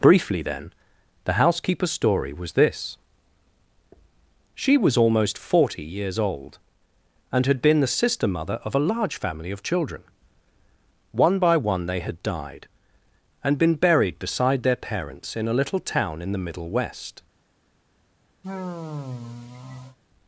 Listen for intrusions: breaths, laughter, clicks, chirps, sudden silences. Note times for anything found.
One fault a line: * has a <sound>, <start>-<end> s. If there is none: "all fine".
* has a sigh, 18.4-20.0 s